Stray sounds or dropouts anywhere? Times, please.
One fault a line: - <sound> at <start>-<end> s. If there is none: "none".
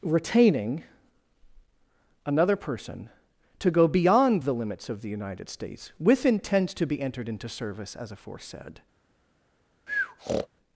- breath at 9.9-10.5 s